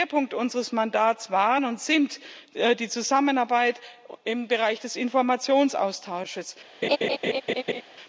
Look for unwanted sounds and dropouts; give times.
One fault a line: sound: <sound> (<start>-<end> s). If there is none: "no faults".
sound: laugh (6.8-7.8 s)